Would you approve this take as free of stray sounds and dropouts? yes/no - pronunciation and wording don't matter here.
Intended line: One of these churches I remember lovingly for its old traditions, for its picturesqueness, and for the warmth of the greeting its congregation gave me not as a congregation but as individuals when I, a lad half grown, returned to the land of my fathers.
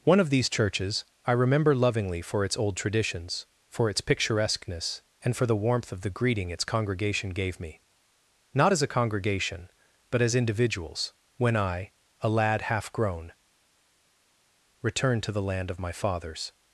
yes